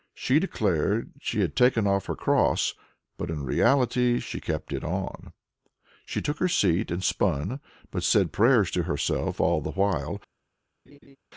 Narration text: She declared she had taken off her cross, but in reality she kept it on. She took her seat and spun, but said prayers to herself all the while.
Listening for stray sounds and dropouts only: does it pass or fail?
fail